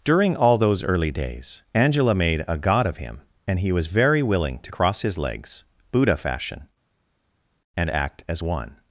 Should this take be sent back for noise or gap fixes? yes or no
no